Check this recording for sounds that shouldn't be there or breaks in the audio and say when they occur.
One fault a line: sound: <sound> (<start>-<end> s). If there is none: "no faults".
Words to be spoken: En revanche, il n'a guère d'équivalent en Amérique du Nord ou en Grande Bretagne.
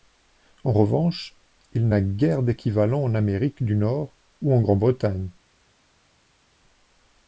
no faults